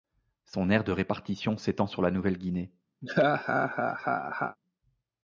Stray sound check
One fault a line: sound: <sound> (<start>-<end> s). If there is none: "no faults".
sound: laugh (3.0-4.6 s)